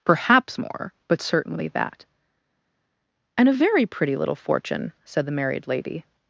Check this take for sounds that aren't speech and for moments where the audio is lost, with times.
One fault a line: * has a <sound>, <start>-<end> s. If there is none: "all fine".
all fine